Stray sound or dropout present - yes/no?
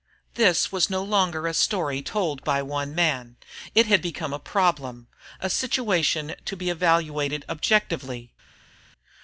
no